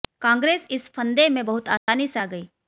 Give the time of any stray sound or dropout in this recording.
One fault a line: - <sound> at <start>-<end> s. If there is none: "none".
- dropout at 1.8-1.9 s